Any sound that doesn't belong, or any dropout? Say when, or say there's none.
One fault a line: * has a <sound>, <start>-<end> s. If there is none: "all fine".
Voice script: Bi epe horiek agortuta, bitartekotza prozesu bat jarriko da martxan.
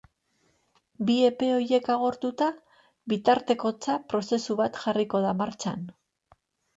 all fine